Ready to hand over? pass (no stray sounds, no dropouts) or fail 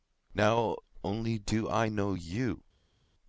pass